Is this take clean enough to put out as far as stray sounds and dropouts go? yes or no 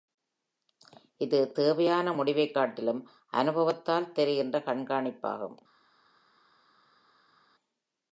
yes